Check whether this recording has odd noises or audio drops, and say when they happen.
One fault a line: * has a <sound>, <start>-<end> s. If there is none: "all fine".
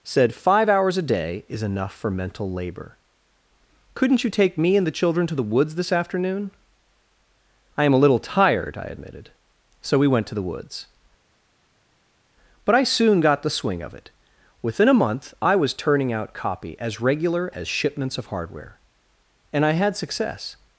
all fine